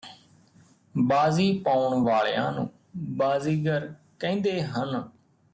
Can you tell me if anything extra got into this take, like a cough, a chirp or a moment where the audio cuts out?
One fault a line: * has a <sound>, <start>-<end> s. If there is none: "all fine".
all fine